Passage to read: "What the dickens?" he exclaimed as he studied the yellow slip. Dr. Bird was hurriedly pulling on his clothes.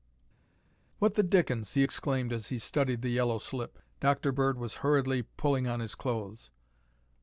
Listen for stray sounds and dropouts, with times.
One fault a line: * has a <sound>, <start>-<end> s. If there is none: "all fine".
all fine